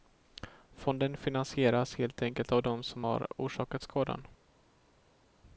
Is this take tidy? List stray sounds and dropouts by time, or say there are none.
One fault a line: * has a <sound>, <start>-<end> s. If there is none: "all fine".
all fine